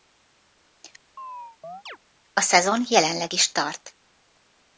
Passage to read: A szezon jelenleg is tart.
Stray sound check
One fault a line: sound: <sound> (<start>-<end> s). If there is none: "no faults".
sound: chirp (1.2-2.0 s)